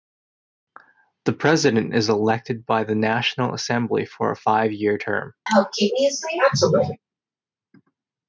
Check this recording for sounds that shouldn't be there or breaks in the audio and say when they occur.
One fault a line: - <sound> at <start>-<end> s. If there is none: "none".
- sneeze at 5.5-7.0 s